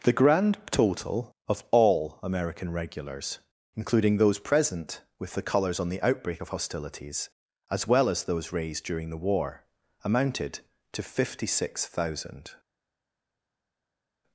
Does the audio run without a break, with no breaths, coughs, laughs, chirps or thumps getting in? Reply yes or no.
yes